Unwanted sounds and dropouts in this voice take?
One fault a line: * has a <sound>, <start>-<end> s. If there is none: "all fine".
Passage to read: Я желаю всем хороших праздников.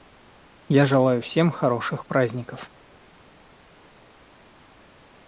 all fine